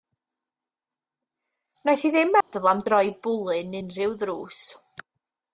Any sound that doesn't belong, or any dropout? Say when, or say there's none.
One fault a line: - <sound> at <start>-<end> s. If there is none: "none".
- dropout at 2.4-2.5 s